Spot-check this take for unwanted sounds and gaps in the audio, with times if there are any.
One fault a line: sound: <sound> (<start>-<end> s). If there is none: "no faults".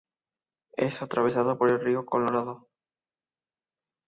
no faults